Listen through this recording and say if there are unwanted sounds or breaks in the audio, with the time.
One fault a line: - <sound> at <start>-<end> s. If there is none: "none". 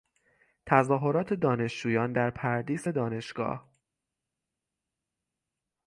none